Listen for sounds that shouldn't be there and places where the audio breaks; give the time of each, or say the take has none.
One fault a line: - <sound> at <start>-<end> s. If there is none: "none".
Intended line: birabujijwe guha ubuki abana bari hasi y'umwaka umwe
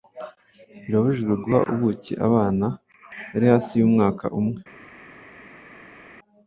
none